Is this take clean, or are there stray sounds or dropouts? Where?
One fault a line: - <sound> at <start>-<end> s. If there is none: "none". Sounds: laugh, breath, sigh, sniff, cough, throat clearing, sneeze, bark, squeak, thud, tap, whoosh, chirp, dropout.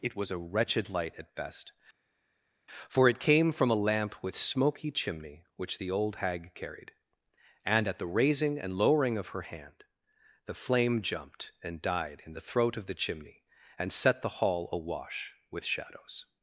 none